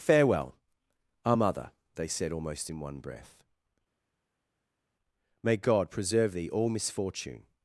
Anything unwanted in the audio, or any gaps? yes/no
no